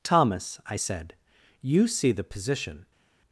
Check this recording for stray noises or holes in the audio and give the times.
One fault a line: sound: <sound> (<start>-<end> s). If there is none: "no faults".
no faults